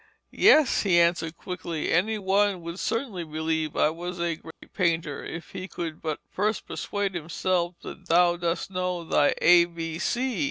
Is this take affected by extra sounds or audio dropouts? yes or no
yes